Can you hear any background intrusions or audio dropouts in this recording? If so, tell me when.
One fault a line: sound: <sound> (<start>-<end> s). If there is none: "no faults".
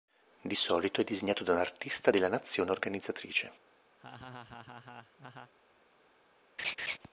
sound: laugh (4.0-5.5 s)
sound: laugh (6.6-7.0 s)